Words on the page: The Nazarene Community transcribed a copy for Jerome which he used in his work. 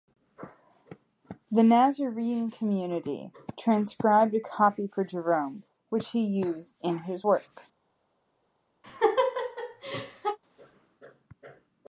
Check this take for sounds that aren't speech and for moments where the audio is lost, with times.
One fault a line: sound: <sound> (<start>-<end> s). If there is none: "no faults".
sound: laugh (8.8-10.4 s)